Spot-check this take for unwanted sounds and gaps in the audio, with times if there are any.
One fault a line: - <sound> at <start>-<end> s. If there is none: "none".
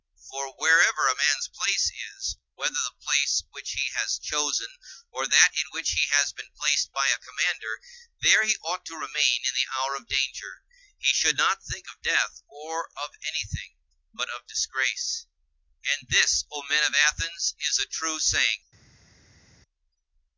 none